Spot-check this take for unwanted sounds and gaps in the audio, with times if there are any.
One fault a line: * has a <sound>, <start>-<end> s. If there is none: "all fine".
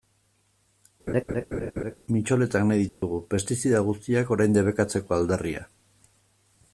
* has a laugh, 1.1-2.0 s
* has a dropout, 2.9-3.0 s